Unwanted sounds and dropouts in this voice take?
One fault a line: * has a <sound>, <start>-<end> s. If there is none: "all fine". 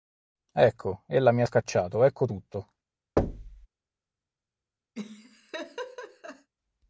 * has a thud, 3.2-3.7 s
* has a laugh, 4.9-6.5 s